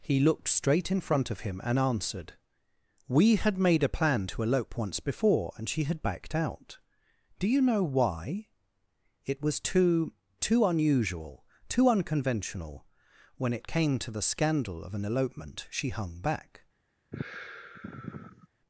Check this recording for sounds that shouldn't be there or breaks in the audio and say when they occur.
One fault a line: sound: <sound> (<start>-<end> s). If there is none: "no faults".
sound: sigh (17.1-18.5 s)